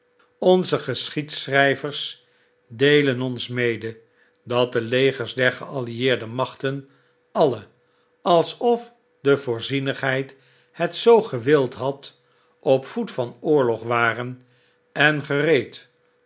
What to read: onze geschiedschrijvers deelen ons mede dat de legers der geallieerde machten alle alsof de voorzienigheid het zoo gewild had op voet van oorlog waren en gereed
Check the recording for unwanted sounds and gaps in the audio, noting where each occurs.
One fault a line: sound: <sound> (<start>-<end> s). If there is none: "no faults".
no faults